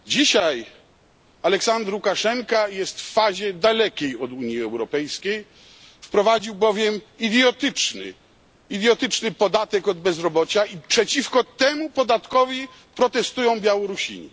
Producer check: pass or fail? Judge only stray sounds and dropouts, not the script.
pass